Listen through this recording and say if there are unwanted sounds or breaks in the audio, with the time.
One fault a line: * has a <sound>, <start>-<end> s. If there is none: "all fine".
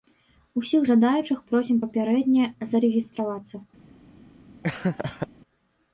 * has a laugh, 4.6-5.3 s